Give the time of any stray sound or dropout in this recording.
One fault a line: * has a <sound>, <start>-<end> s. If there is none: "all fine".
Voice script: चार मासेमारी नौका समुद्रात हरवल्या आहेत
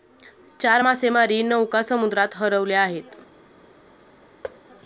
* has a thud, 4.4-4.6 s